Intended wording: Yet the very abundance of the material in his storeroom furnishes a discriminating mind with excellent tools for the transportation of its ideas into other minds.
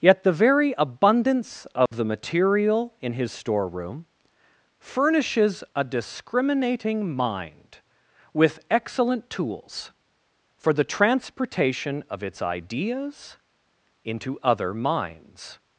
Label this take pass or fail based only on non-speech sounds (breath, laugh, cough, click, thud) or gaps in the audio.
fail